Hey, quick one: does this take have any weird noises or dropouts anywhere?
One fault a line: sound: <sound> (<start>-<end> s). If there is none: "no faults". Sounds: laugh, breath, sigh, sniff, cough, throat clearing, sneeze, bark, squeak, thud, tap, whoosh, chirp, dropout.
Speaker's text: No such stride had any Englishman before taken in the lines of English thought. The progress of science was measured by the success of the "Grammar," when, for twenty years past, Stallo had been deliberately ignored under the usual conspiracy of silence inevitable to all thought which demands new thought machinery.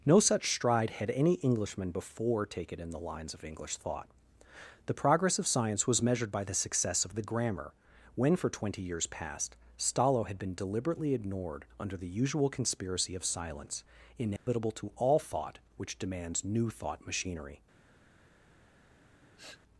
sound: dropout (14.4-14.5 s)
sound: sniff (19.0-19.6 s)